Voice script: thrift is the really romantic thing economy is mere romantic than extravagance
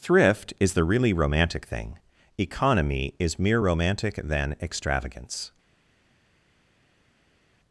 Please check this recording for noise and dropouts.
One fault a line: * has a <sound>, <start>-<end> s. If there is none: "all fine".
all fine